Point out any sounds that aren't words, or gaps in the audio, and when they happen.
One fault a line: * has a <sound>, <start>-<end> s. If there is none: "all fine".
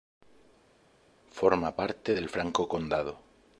all fine